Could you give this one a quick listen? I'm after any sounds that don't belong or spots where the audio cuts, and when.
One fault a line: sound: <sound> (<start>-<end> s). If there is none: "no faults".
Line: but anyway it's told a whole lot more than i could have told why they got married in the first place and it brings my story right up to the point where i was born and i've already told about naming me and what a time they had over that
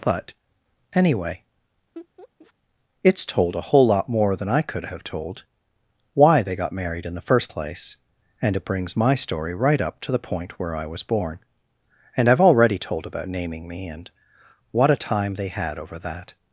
sound: laugh (1.9-2.5 s)